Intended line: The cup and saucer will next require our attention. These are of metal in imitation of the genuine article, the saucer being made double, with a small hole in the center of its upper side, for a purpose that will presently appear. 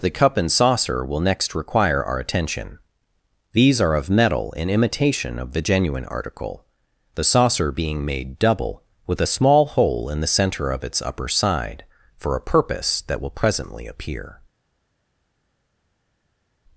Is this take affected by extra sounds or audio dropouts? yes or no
no